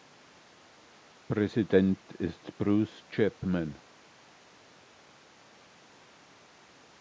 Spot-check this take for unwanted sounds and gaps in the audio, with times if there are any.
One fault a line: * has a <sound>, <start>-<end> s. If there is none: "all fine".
all fine